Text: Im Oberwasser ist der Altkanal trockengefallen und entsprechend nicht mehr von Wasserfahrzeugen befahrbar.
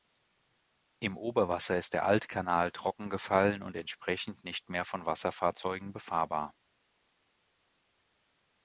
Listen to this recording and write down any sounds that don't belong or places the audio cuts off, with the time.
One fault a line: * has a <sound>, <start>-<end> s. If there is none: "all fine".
all fine